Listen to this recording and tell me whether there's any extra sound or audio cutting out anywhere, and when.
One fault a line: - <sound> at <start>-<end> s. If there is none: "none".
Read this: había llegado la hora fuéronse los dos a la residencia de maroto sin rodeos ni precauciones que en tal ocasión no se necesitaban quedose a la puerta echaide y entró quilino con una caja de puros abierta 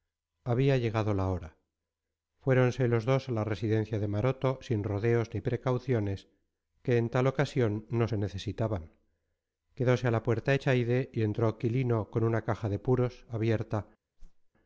- whoosh at 14.2-14.5 s